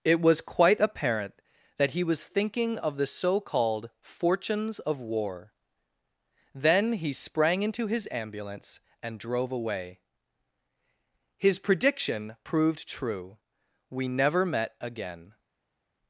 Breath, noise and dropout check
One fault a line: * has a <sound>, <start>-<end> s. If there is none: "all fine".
all fine